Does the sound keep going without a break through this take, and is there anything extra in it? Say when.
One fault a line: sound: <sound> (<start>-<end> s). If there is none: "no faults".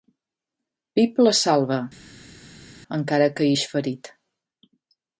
no faults